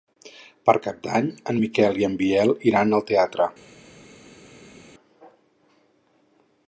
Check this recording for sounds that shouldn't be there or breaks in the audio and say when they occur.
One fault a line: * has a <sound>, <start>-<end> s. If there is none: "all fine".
all fine